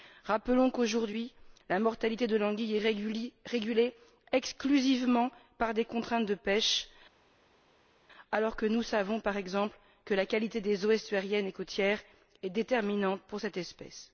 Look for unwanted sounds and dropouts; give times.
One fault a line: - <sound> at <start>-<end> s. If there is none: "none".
none